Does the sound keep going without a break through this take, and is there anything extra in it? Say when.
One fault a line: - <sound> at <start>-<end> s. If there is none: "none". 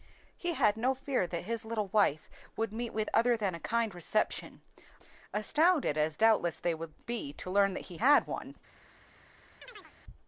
- chirp at 9.6-9.9 s